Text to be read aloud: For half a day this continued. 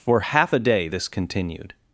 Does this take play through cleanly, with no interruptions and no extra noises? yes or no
yes